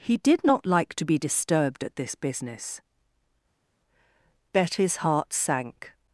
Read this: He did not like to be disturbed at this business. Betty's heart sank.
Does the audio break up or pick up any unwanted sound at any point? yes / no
no